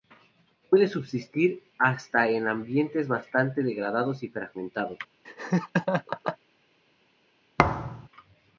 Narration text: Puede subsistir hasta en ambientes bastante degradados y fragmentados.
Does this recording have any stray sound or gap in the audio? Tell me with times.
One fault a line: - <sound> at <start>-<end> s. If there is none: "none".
- laugh at 5.2-6.4 s
- thud at 7.6-8.1 s